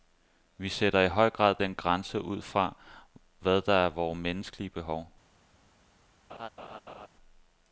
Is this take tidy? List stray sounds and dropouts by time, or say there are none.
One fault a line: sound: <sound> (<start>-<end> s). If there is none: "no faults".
sound: laugh (6.3-7.1 s)